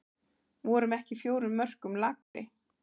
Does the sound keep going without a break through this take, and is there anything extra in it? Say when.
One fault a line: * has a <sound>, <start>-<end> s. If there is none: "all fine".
* has a dropout, 2.2-2.3 s